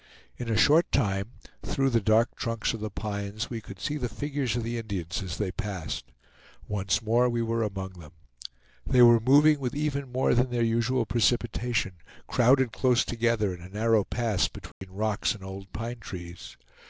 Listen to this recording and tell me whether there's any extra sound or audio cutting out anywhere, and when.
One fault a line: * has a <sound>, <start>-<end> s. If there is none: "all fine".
* has a dropout, 14.7-14.8 s